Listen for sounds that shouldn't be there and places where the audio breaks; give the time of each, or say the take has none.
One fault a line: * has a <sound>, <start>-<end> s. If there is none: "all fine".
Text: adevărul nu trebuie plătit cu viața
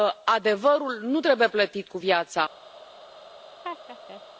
* has a laugh, 3.6-4.2 s